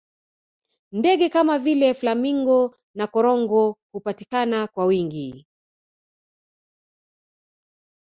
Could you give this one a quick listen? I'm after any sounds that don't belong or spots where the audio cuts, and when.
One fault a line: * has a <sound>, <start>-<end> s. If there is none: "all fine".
all fine